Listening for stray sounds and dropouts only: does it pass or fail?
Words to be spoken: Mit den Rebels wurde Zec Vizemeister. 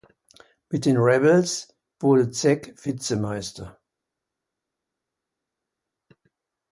pass